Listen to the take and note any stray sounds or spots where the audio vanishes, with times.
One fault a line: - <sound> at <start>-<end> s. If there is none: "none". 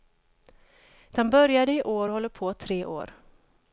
none